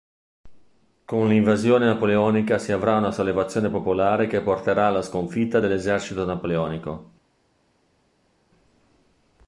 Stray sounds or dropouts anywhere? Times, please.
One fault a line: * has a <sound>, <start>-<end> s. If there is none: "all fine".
all fine